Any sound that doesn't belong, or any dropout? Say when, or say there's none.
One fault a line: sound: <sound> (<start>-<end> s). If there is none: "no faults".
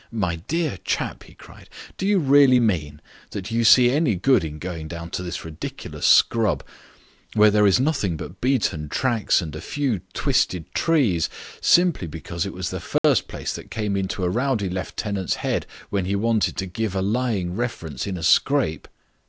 sound: dropout (13.0-13.0 s)